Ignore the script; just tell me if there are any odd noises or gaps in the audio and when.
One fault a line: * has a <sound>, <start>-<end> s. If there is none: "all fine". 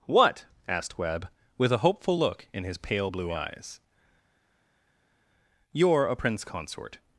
all fine